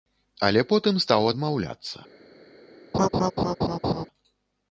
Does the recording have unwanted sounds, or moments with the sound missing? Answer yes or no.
yes